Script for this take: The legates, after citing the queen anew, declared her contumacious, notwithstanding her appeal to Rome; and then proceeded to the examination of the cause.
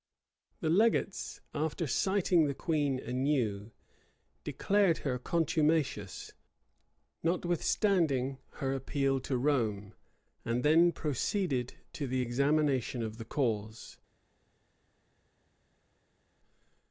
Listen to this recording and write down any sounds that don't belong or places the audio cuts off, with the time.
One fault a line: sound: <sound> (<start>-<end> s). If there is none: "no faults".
no faults